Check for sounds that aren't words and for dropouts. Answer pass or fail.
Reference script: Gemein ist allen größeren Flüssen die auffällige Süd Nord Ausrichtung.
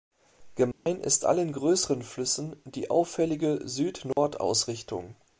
fail